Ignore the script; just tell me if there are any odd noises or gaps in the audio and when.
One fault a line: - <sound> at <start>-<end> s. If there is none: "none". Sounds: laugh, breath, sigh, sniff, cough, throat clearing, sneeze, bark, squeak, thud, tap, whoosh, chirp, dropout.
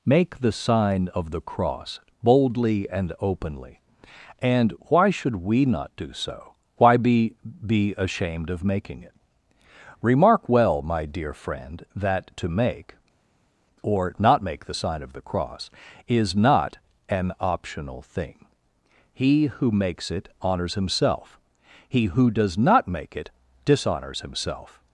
none